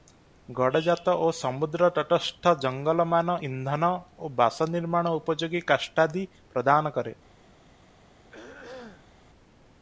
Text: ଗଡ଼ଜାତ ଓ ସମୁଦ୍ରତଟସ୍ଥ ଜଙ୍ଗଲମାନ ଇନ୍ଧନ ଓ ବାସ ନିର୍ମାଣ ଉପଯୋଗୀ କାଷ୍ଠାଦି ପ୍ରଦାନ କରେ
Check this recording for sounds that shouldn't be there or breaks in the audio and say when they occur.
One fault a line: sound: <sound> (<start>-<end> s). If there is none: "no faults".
sound: throat clearing (8.3-9.1 s)